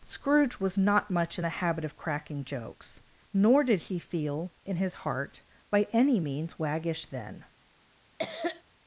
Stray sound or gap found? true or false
true